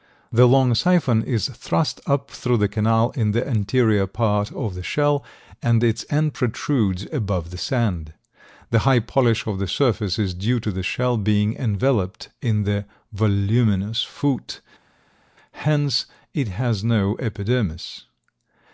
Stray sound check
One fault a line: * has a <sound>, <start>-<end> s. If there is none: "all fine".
all fine